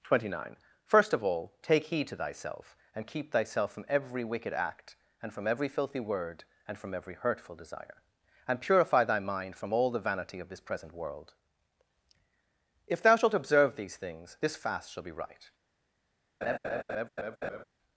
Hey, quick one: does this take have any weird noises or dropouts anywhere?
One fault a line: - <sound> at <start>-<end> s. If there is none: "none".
- laugh at 16.4-17.6 s